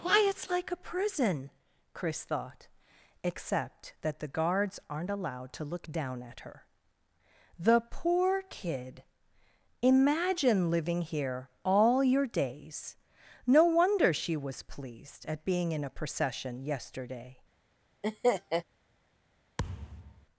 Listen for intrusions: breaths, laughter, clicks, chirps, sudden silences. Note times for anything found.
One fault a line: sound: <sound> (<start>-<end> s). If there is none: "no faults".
sound: laugh (18.0-18.6 s)
sound: thud (19.6-20.3 s)